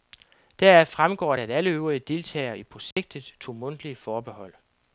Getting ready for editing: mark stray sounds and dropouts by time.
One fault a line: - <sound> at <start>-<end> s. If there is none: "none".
- dropout at 2.9-3.0 s